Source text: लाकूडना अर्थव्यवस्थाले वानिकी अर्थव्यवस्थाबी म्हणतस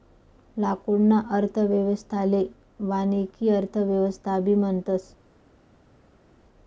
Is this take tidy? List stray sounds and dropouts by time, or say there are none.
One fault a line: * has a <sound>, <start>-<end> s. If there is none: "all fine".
all fine